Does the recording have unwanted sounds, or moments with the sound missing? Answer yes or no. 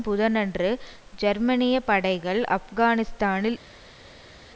no